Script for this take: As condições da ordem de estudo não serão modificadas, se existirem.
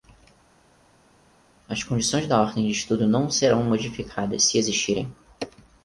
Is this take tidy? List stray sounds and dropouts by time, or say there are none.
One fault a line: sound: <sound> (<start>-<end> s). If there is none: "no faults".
no faults